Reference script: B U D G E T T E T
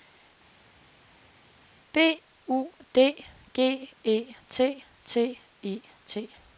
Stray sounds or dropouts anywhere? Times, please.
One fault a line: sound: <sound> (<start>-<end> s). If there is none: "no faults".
no faults